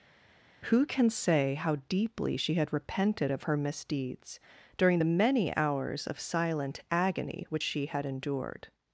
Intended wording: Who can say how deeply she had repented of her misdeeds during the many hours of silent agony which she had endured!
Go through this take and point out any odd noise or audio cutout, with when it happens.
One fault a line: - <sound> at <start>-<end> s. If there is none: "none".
none